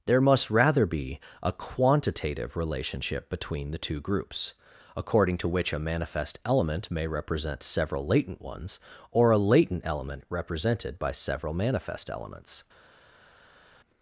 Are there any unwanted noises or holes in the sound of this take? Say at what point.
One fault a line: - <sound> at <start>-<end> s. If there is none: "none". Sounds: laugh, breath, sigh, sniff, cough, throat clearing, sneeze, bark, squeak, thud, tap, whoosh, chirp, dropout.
none